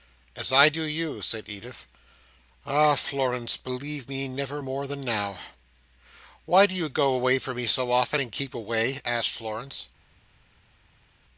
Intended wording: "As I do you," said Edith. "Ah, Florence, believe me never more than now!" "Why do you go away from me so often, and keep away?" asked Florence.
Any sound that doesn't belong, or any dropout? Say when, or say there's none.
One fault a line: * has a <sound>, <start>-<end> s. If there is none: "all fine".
all fine